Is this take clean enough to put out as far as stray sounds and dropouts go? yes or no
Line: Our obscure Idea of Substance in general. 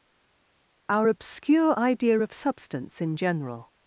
yes